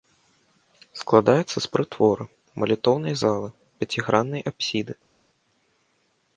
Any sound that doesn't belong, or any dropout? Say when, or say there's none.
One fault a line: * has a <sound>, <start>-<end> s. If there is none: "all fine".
all fine